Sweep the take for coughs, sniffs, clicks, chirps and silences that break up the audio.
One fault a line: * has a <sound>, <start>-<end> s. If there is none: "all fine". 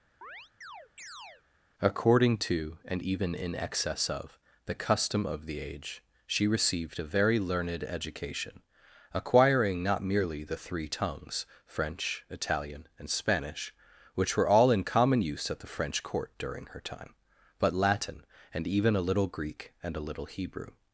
* has a chirp, 0.2-1.4 s